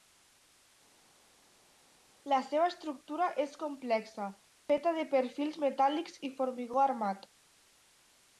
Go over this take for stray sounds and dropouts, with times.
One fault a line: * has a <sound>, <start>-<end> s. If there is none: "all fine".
all fine